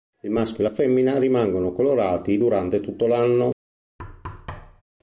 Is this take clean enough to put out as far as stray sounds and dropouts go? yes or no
no